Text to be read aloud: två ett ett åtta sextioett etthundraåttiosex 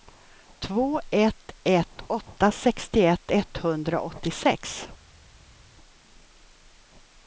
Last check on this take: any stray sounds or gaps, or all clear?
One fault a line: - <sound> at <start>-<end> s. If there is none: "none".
none